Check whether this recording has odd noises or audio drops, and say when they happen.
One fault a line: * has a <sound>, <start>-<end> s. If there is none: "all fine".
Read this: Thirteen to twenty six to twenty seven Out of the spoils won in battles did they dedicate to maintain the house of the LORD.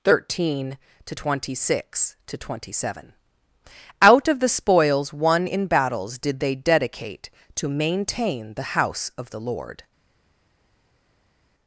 all fine